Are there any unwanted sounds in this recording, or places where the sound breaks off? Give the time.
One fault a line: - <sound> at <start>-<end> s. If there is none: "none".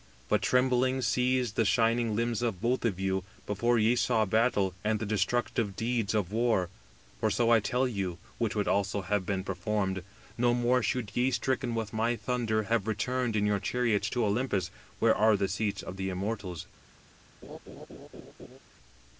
- laugh at 17.4-18.6 s